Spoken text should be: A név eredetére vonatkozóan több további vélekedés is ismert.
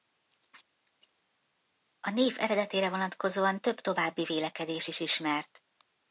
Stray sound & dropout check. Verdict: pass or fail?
pass